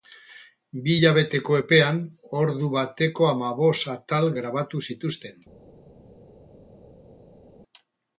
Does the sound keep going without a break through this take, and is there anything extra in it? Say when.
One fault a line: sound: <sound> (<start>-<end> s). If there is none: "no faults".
no faults